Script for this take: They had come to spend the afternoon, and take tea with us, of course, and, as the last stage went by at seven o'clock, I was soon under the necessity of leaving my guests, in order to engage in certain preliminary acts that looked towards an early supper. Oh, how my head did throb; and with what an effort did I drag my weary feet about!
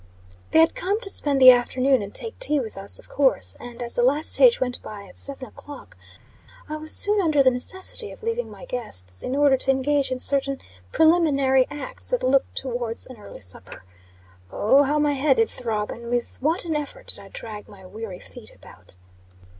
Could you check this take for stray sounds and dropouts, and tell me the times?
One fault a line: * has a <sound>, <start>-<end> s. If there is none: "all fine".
all fine